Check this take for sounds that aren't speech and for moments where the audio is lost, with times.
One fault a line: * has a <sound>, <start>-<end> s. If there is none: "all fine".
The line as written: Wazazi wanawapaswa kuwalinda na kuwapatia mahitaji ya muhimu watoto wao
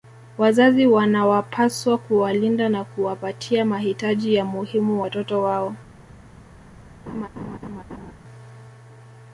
* has a laugh, 7.1-8.1 s